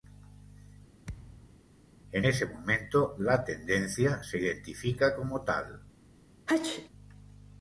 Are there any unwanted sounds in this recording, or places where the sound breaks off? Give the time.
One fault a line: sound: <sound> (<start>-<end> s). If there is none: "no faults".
sound: thud (1.0-1.6 s)
sound: sneeze (6.5-6.9 s)